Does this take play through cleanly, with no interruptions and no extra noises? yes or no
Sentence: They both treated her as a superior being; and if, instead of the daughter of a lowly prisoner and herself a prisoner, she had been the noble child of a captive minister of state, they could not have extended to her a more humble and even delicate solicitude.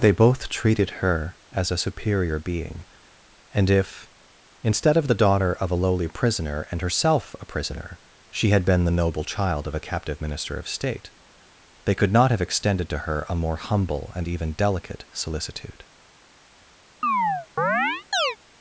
no